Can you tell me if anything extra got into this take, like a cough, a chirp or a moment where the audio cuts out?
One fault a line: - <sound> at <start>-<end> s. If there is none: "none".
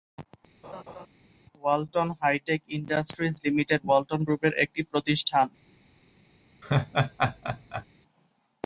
- laugh at 0.6-1.1 s
- laugh at 6.6-7.8 s